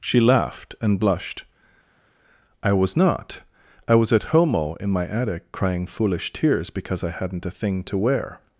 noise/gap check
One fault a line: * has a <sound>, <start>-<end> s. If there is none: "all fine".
all fine